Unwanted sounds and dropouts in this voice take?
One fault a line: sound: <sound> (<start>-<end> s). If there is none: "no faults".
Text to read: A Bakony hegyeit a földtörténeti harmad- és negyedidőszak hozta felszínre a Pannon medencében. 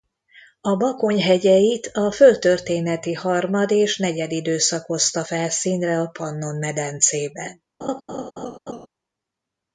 sound: laugh (7.8-8.9 s)